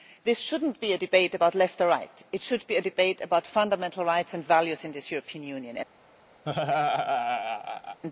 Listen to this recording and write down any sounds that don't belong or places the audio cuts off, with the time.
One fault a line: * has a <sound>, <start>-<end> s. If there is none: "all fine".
* has a laugh, 6.5-8.0 s